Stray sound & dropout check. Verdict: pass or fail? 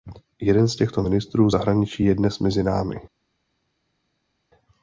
pass